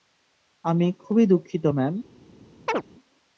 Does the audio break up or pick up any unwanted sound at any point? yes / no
yes